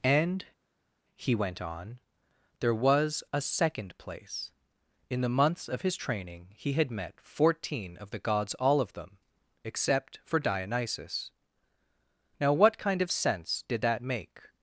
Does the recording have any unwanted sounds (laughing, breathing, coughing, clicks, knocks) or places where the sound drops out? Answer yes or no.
no